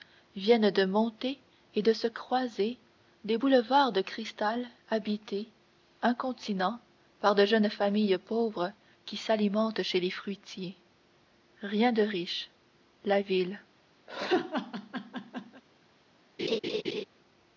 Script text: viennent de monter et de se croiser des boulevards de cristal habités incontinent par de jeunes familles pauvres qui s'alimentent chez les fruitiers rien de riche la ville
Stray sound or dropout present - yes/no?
yes